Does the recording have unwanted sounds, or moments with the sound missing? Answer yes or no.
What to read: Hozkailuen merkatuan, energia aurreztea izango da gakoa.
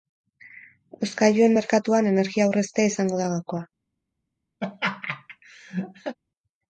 yes